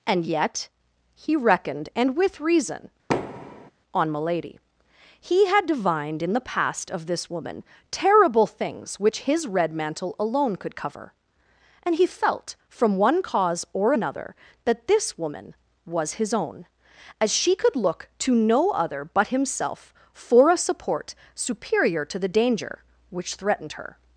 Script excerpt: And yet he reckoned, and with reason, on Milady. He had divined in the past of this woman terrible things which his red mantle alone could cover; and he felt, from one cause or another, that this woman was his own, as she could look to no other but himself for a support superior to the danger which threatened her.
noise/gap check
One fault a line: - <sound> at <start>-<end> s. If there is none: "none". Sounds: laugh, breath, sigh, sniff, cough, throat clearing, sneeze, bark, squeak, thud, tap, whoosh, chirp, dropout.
- thud at 3.1-3.7 s